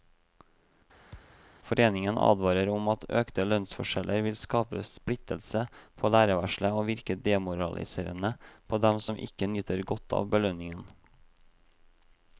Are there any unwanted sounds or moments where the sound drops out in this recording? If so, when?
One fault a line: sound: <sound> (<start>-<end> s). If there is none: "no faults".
sound: thud (1.1-1.5 s)